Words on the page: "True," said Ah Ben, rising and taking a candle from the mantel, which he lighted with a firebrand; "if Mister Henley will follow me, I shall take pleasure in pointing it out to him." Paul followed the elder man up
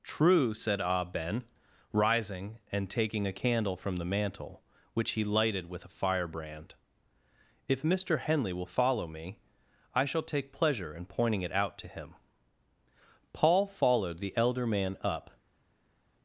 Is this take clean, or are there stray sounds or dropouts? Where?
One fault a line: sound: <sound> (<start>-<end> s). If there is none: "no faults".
no faults